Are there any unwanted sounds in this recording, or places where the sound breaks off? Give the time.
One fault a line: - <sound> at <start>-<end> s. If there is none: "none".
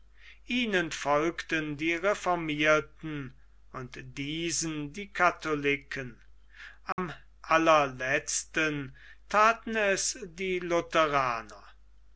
- dropout at 6.9-7.0 s